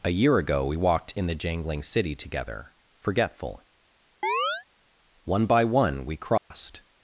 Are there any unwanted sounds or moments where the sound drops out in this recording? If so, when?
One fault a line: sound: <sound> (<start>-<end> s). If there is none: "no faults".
sound: chirp (4.2-4.7 s)
sound: dropout (6.4-6.5 s)